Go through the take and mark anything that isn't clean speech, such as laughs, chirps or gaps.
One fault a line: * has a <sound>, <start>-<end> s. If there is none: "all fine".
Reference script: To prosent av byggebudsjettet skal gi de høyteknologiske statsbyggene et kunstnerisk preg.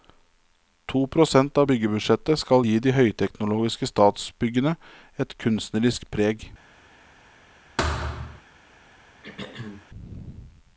* has a thud, 7.8-8.4 s
* has a throat clearing, 9.2-9.9 s